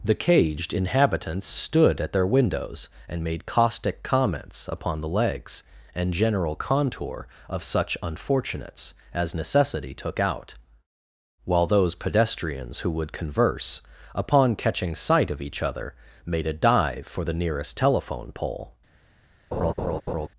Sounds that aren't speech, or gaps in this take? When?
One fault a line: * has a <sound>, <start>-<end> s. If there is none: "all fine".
* has a laugh, 19.5-20.3 s